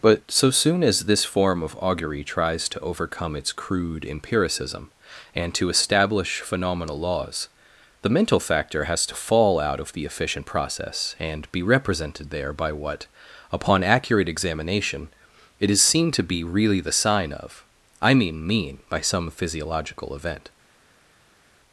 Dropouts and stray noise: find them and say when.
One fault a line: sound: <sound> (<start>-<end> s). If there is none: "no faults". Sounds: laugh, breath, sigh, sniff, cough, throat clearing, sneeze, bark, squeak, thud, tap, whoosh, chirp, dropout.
no faults